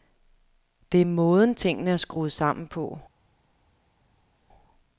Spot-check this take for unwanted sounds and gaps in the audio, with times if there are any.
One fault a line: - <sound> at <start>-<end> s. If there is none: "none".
none